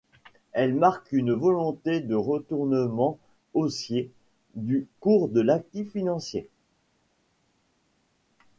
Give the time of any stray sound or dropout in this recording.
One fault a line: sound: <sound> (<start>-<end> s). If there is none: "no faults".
no faults